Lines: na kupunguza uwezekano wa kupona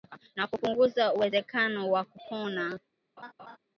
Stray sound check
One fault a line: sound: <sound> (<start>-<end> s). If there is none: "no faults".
sound: laugh (3.2-3.6 s)